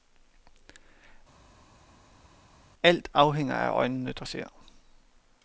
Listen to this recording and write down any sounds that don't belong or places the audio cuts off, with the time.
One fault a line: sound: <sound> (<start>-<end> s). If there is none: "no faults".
no faults